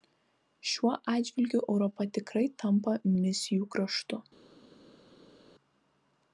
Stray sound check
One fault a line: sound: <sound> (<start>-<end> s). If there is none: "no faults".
no faults